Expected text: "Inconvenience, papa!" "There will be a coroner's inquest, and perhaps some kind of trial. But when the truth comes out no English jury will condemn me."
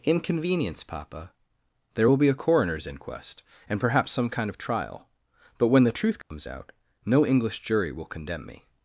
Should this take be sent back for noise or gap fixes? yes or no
yes